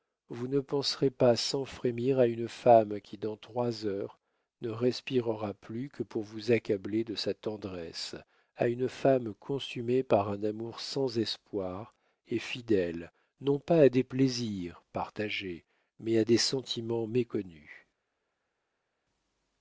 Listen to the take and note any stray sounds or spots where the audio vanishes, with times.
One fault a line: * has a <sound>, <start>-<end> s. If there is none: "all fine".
all fine